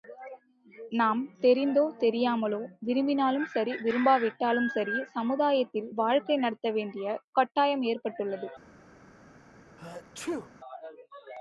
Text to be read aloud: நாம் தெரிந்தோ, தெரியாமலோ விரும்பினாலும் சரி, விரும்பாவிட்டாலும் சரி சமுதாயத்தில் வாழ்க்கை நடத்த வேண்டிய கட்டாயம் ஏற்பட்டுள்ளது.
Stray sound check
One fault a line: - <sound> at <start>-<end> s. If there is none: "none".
- sneeze at 9.8-10.5 s